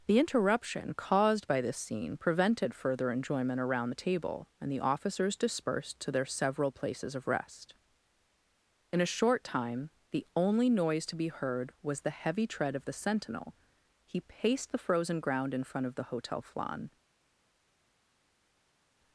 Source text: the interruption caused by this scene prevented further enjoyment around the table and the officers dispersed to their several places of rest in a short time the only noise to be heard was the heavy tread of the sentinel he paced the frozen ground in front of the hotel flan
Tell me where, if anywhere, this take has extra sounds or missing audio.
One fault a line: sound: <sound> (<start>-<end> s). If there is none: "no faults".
no faults